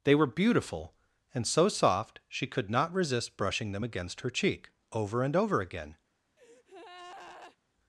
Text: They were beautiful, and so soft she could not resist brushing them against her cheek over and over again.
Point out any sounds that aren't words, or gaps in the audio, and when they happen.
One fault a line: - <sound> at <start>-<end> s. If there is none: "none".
- breath at 6.4-7.6 s